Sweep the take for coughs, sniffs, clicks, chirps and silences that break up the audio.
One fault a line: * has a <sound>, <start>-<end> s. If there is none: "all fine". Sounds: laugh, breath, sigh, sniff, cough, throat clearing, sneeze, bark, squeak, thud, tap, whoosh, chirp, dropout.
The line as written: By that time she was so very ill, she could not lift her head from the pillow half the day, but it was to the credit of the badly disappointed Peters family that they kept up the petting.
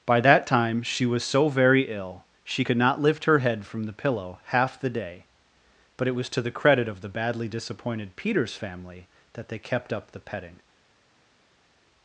all fine